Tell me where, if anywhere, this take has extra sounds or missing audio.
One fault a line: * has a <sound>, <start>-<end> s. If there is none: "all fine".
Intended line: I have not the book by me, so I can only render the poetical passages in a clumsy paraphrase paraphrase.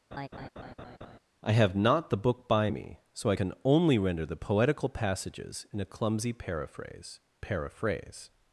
* has a laugh, 0.1-1.2 s